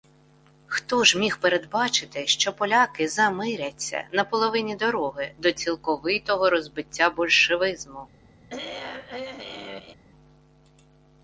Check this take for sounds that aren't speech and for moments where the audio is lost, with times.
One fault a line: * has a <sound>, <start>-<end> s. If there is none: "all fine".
* has a throat clearing, 8.5-9.9 s